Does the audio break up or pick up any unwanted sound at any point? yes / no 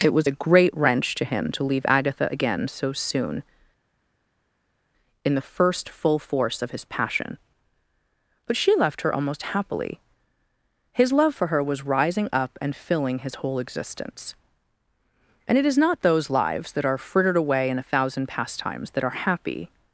no